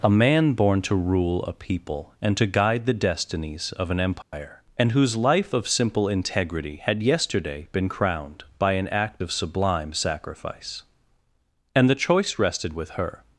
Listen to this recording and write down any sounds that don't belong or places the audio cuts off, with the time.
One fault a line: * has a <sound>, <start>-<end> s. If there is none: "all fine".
* has a dropout, 4.2-4.3 s